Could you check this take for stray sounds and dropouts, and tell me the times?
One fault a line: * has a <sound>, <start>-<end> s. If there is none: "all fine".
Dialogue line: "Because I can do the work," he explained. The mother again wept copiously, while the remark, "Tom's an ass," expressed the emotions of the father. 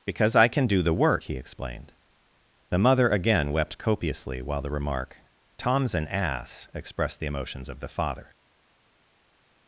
all fine